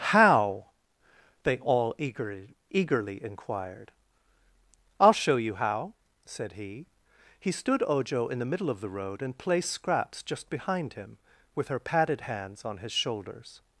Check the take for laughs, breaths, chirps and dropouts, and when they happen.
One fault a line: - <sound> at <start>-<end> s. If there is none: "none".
none